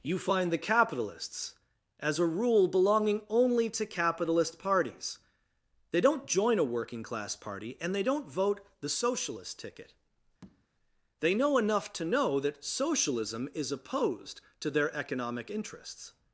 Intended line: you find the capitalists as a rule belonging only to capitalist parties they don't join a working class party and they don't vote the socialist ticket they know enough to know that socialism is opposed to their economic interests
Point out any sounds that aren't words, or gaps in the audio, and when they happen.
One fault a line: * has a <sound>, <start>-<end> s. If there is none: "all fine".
* has a tap, 10.4-10.7 s